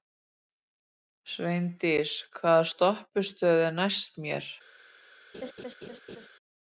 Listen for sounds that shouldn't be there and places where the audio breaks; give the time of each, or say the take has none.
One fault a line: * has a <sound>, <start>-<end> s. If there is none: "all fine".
* has a laugh, 5.3-6.3 s